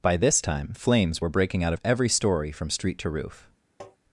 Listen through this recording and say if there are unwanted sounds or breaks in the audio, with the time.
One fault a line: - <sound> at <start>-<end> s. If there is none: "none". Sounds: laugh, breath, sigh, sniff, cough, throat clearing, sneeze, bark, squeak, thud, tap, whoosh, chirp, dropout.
- tap at 3.8-4.0 s